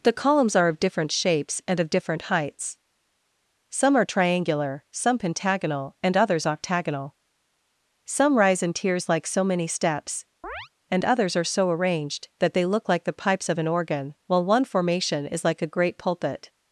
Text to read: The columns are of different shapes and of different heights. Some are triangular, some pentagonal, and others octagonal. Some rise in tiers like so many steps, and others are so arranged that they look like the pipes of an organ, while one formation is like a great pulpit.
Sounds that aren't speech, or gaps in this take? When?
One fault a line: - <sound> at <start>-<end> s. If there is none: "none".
- chirp at 10.4-10.7 s